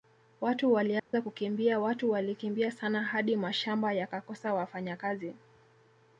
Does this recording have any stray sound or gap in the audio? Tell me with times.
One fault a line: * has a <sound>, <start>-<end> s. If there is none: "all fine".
* has a dropout, 1.0-1.1 s